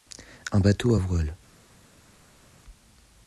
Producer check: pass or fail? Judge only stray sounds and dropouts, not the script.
pass